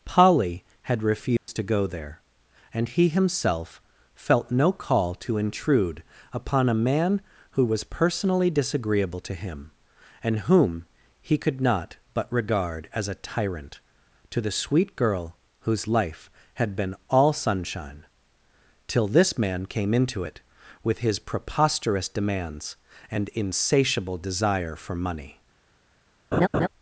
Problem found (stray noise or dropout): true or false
true